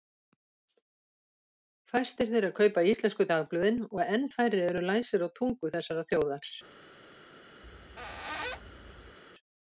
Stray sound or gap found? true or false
true